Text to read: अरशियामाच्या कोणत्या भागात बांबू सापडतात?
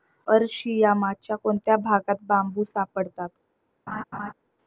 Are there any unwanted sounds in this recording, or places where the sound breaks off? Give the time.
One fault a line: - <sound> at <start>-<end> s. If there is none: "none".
- laugh at 3.9-4.3 s